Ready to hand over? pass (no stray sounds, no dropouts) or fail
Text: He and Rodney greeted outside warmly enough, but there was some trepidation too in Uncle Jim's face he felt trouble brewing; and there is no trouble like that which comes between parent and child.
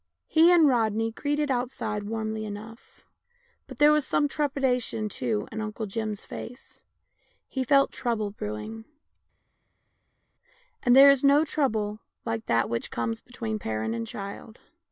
pass